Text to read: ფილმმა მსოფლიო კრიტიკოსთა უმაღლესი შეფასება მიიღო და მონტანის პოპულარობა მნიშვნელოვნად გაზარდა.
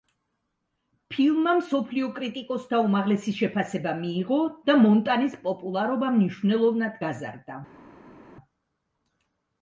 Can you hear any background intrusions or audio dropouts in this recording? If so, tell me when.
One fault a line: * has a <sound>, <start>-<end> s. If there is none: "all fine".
all fine